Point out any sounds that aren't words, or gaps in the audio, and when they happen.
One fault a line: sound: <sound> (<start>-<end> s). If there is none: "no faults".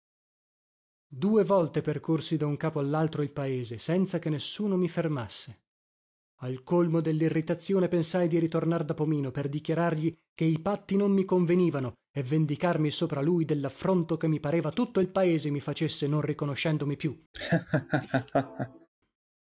sound: laugh (17.3-18.9 s)